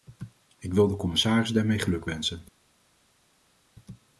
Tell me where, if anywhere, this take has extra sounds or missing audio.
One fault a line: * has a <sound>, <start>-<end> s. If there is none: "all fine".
all fine